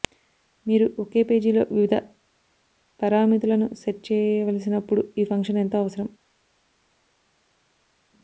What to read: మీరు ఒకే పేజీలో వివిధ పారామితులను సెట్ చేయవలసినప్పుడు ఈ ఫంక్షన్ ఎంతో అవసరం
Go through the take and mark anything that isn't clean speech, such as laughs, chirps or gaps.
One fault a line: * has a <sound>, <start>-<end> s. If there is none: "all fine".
all fine